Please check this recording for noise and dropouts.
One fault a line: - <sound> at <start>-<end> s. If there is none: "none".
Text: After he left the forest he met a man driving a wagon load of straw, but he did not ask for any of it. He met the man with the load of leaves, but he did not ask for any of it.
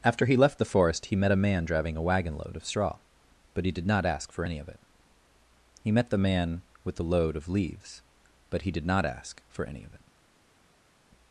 none